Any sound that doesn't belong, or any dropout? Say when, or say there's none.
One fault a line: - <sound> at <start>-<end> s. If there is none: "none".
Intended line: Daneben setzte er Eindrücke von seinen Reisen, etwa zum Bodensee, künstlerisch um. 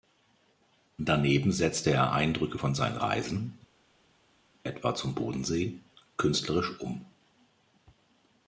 none